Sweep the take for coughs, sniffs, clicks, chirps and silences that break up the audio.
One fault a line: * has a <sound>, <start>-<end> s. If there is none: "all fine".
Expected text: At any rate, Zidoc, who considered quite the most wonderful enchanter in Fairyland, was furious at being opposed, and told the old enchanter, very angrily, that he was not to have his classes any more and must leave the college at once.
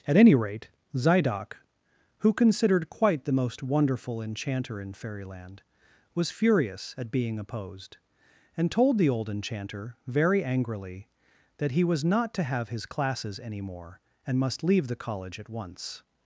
all fine